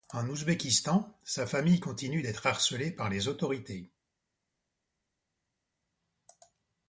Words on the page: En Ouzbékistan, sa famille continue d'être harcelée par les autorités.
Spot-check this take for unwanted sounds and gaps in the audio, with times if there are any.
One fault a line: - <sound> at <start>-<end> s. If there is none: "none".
none